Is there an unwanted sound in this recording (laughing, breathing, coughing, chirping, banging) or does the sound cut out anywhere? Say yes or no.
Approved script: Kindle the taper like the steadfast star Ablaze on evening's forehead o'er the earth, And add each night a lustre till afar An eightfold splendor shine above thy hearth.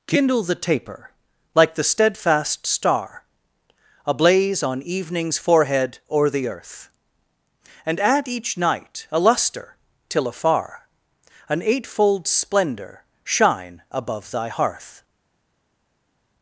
no